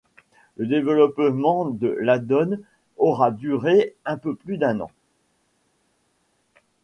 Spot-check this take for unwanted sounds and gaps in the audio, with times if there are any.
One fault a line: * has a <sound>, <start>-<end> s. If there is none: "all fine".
all fine